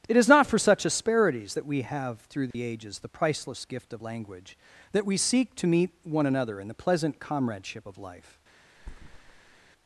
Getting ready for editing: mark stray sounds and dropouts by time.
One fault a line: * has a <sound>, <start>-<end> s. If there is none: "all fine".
* has a dropout, 2.5-2.5 s
* has a thud, 8.8-9.7 s